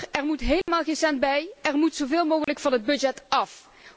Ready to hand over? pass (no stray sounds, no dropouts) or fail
fail